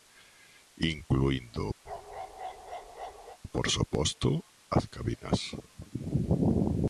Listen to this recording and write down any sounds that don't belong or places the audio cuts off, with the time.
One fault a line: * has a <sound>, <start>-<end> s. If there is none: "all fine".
* has a bark, 1.8-3.4 s